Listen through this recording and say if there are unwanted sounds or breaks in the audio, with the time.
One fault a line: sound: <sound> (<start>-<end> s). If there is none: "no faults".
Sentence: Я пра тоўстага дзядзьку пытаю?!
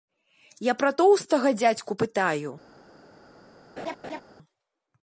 sound: laugh (3.8-4.2 s)